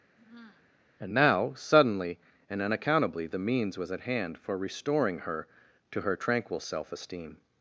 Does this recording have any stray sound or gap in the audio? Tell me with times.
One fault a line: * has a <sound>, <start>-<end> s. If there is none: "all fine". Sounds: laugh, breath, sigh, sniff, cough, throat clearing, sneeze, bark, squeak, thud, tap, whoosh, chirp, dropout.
* has a sigh, 0.2-0.7 s